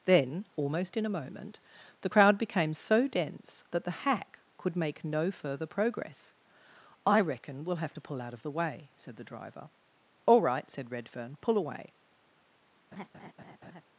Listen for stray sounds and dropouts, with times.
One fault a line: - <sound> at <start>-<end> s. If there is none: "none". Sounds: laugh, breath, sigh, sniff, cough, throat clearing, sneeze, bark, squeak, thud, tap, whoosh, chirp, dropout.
- laugh at 12.9-13.9 s